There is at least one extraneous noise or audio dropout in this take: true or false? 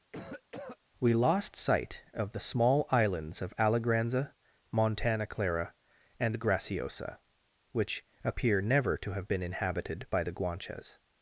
true